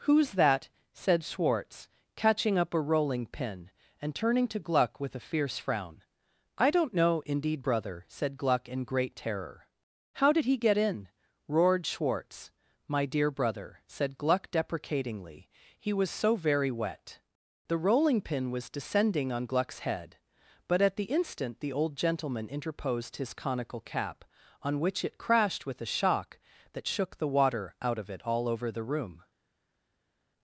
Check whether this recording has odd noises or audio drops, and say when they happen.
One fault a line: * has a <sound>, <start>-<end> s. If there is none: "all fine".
all fine